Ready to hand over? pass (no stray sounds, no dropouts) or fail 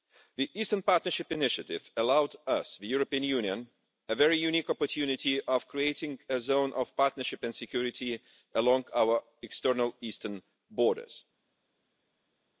pass